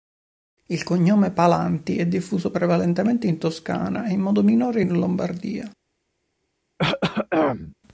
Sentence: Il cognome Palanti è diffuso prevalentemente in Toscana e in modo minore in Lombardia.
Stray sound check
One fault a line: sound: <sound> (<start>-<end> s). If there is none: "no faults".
sound: throat clearing (6.8-7.7 s)